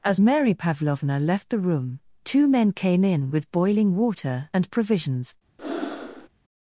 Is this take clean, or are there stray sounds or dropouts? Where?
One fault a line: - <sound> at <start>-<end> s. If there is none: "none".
- breath at 5.6-6.3 s